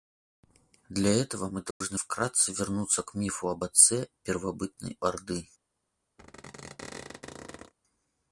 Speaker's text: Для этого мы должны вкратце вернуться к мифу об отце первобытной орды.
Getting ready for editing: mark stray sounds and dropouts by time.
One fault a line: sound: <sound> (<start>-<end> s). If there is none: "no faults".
sound: dropout (1.7-1.8 s)
sound: squeak (6.2-7.7 s)